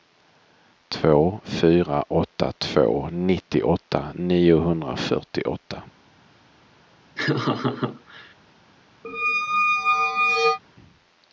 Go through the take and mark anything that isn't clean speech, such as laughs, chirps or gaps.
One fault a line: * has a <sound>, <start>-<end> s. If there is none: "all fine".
* has a laugh, 7.2-8.3 s
* has a squeak, 9.0-10.6 s